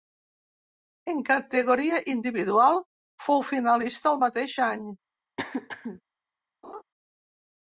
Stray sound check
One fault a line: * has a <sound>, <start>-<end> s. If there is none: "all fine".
* has a throat clearing, 5.4-6.0 s
* has a laugh, 6.6-6.8 s